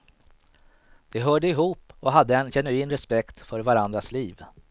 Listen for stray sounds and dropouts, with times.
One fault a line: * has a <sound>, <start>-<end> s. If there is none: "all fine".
all fine